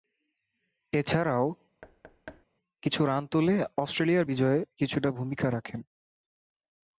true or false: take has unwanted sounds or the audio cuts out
true